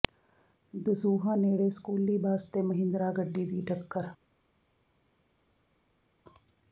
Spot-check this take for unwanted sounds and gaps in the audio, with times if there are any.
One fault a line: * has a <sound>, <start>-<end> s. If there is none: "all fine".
all fine